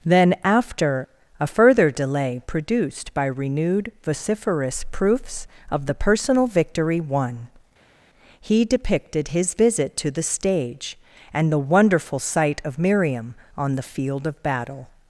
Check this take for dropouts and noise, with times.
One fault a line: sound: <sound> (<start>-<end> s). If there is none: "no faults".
no faults